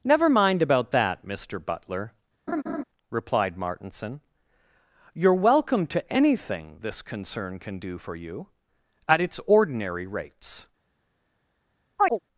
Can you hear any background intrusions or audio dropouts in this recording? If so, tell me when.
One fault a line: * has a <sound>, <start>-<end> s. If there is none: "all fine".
* has a laugh, 2.5-2.8 s
* has a chirp, 12.0-12.2 s